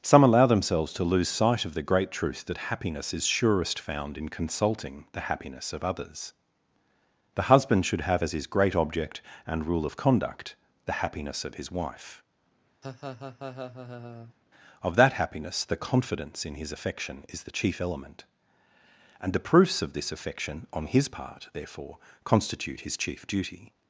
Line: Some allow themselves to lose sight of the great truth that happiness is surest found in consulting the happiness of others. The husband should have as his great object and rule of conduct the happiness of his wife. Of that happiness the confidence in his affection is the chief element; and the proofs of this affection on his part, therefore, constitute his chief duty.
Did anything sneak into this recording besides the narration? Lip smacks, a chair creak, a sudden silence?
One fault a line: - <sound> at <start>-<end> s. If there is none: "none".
- laugh at 12.8-14.3 s